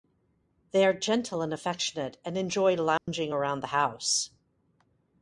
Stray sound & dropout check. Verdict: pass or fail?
fail